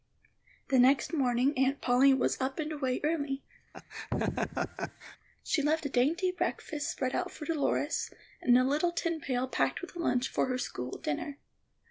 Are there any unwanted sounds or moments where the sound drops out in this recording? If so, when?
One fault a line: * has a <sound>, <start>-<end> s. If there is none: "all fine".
* has a laugh, 3.7-5.2 s